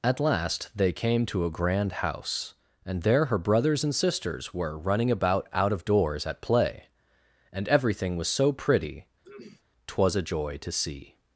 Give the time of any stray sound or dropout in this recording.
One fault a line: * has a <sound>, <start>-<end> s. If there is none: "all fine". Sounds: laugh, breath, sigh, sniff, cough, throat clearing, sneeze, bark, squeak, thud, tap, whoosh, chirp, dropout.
* has a throat clearing, 9.2-9.6 s